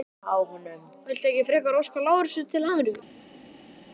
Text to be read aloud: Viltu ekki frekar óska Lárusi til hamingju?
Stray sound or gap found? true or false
false